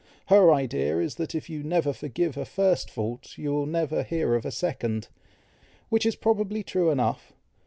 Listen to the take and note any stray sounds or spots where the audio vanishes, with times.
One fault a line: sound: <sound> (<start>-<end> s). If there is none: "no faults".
no faults